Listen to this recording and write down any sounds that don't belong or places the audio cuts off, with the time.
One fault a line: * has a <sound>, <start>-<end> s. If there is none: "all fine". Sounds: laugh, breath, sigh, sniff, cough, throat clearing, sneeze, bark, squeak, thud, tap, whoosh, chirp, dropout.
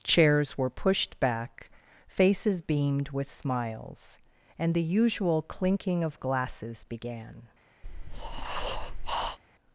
* has a breath, 7.8-9.4 s